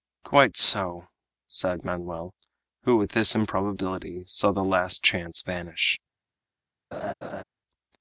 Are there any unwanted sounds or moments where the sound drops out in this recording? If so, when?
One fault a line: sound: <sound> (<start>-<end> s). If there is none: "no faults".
sound: laugh (6.9-7.4 s)